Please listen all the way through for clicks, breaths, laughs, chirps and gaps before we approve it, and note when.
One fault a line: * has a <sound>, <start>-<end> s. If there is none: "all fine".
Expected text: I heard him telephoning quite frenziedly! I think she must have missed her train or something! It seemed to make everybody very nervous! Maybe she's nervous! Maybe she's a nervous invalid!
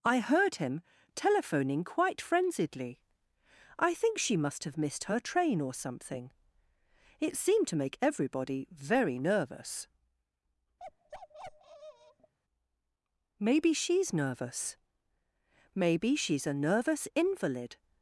* has a bark, 10.8-12.3 s